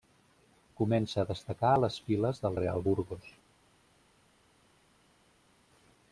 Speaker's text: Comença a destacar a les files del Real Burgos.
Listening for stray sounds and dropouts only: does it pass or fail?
pass